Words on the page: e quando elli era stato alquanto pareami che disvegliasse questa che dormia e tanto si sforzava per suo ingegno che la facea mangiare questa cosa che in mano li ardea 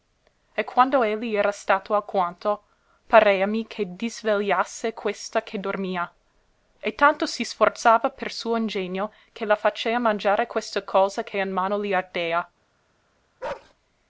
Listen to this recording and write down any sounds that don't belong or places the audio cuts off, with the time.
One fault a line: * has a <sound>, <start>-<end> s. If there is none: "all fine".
* has a bark, 13.4-13.7 s